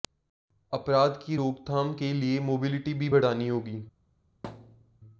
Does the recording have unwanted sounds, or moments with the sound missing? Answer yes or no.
yes